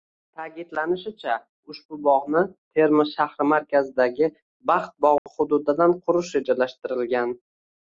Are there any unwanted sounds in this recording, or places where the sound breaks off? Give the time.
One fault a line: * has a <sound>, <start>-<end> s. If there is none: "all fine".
* has a dropout, 5.2-5.3 s